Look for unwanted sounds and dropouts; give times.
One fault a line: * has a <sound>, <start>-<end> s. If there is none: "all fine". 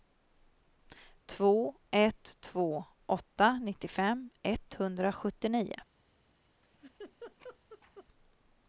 * has a laugh, 6.6-8.1 s